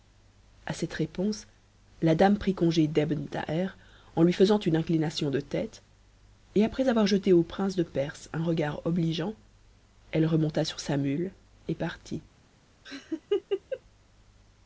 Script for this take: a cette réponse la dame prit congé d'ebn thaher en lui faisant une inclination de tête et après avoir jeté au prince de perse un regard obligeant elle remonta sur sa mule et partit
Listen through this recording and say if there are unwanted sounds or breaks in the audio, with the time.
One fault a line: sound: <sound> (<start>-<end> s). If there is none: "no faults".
sound: laugh (12.8-13.8 s)